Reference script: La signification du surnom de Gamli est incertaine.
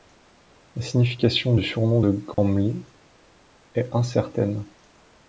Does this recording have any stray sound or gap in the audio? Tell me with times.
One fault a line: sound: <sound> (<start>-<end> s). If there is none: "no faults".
sound: dropout (2.3-2.4 s)